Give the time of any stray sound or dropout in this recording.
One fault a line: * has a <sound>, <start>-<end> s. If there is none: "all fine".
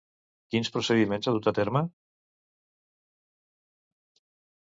all fine